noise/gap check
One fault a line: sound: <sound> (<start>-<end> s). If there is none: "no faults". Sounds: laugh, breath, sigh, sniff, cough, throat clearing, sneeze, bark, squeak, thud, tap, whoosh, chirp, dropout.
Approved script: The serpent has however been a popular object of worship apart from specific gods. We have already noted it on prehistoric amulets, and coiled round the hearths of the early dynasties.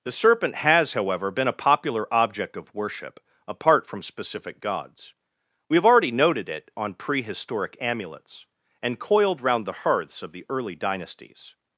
no faults